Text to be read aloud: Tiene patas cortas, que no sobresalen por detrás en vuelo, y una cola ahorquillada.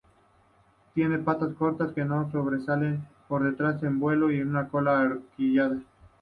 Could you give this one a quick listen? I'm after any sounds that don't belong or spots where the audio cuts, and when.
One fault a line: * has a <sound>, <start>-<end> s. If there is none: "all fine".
all fine